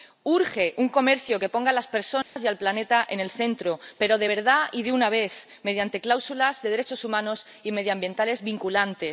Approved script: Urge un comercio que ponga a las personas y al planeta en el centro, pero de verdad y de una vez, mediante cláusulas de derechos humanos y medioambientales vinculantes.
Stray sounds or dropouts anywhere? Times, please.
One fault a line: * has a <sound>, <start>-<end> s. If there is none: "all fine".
* has a dropout, 2.2-2.4 s